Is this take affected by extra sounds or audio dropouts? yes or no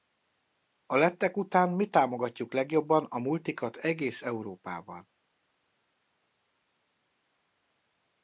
no